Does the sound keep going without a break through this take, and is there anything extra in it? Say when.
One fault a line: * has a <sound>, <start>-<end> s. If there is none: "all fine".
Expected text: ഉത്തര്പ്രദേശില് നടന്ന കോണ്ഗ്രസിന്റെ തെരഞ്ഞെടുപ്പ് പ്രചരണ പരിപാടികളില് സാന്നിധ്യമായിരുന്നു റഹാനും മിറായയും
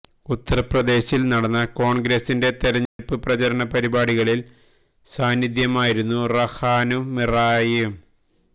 * has a dropout, 2.9-3.0 s